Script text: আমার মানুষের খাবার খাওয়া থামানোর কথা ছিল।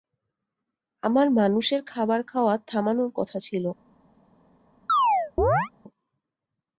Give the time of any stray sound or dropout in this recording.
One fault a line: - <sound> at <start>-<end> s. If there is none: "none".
- chirp at 4.9-5.7 s